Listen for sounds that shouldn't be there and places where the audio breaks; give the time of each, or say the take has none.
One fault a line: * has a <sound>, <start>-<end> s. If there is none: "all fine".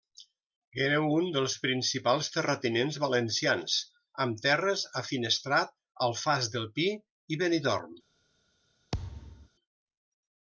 * has a thud, 8.9-9.5 s